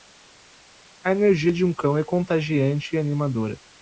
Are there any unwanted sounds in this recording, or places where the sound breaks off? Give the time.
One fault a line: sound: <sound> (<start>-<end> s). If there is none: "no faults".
no faults